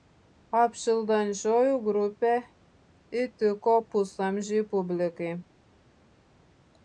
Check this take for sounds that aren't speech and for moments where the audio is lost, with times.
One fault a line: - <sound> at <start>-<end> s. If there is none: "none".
none